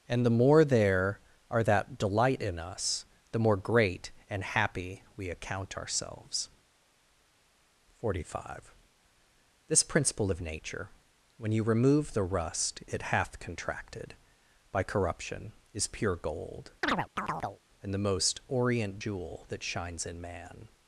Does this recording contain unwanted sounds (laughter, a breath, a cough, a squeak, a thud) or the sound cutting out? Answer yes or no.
yes